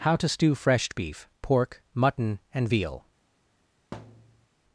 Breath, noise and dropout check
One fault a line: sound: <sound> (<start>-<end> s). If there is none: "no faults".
sound: thud (3.9-4.5 s)